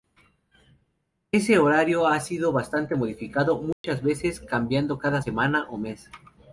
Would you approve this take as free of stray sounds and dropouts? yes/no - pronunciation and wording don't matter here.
no